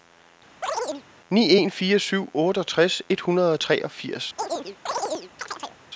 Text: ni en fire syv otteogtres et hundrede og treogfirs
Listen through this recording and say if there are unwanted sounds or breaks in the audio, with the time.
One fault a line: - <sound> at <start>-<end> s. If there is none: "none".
- chirp at 0.6-1.0 s
- chirp at 4.4-5.8 s